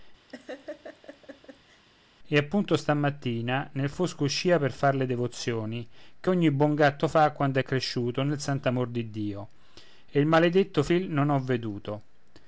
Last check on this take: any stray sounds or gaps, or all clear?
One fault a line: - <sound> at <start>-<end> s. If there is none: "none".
- laugh at 0.3-1.8 s